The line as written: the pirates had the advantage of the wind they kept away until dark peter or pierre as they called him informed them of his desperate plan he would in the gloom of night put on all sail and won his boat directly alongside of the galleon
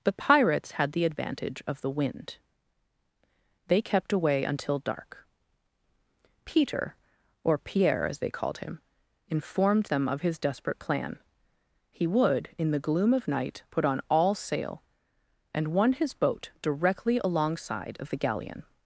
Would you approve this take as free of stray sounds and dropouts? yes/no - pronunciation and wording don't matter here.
yes